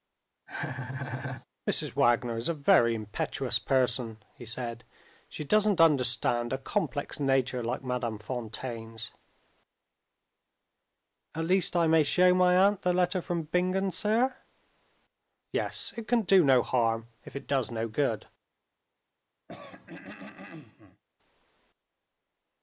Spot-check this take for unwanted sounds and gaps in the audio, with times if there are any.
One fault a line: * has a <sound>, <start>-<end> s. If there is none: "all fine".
* has a laugh, 0.5-1.5 s
* has a throat clearing, 19.5-21.0 s